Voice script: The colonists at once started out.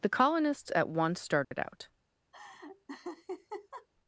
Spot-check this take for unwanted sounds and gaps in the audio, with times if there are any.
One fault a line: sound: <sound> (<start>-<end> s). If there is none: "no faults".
sound: dropout (1.4-1.5 s)
sound: laugh (2.3-3.9 s)